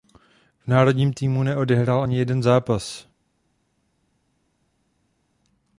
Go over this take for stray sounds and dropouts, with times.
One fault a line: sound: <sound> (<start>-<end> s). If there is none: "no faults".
no faults